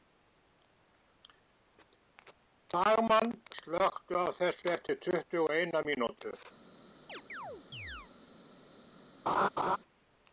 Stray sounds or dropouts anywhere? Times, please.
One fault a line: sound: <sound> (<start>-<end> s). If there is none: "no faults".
sound: chirp (7.1-8.1 s)
sound: laugh (9.3-9.8 s)